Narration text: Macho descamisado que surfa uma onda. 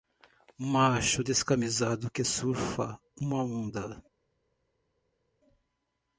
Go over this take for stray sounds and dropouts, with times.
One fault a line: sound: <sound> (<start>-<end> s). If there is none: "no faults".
no faults